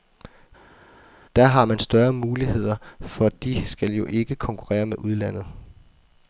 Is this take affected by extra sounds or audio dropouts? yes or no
no